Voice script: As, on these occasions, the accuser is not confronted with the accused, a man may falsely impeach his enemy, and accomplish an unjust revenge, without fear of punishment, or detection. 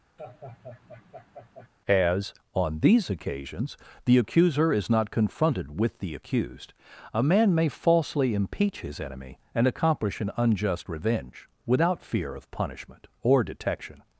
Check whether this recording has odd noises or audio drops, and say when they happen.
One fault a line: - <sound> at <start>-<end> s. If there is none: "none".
- laugh at 0.2-1.7 s